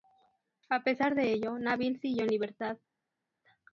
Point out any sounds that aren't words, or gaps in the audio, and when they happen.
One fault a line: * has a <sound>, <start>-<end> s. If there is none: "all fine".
all fine